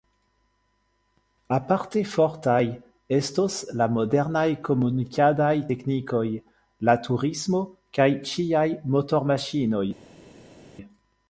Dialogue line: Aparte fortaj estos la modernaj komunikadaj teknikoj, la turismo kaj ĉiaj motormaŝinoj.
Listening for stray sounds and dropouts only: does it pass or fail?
pass